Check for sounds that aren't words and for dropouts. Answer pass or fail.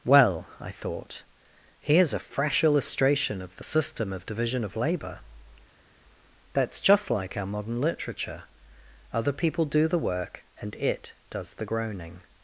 pass